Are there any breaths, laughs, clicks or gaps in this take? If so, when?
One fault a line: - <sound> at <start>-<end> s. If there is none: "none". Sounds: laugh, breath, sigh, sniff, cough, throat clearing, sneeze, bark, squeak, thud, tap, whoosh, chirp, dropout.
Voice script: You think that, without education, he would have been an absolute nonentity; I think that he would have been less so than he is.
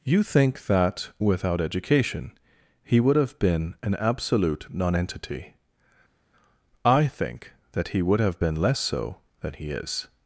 none